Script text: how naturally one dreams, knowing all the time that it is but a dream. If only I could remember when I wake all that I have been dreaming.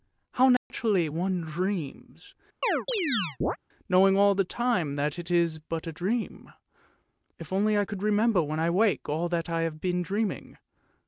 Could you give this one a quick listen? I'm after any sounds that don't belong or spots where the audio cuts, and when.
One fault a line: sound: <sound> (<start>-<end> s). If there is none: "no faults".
sound: dropout (0.6-0.7 s)
sound: chirp (2.6-3.6 s)